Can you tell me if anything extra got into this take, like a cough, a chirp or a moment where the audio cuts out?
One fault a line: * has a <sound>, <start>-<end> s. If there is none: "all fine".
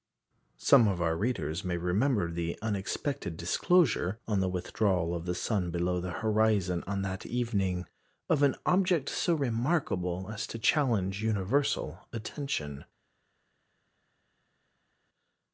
all fine